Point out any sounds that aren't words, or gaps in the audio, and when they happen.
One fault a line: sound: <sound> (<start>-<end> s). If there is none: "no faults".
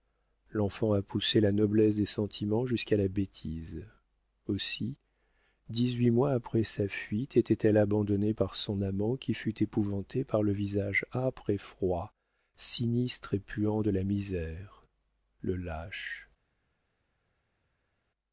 no faults